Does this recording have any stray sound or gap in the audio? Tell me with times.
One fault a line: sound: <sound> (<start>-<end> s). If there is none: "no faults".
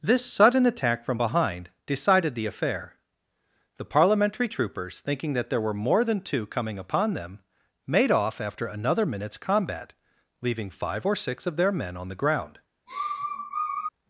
sound: sniff (12.9-13.9 s)